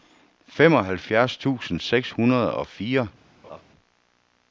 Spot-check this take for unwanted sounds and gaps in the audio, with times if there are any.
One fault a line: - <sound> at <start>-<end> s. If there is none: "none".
- laugh at 3.4-3.6 s